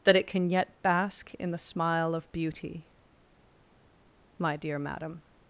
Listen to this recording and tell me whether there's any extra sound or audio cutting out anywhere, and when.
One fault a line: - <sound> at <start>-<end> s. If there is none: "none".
none